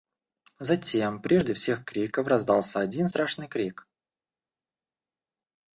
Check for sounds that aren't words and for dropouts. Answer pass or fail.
pass